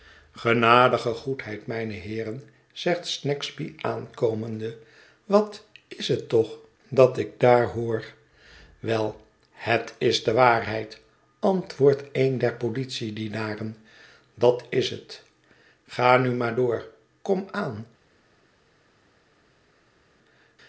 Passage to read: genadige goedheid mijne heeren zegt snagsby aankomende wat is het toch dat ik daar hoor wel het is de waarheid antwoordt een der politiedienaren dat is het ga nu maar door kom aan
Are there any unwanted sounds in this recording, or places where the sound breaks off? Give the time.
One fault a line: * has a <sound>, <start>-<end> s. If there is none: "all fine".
all fine